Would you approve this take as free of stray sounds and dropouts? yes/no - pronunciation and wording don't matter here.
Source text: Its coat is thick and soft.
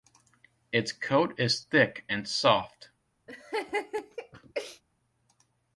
no